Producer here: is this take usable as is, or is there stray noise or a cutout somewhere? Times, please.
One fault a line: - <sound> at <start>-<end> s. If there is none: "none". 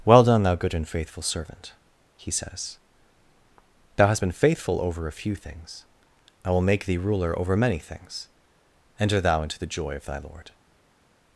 none